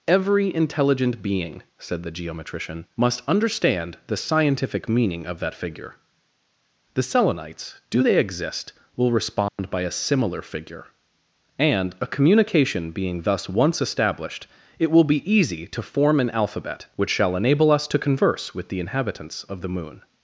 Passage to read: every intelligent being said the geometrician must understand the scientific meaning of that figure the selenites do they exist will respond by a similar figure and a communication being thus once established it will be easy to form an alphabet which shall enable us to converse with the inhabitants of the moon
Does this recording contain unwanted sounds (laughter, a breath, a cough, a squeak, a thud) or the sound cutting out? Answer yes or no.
yes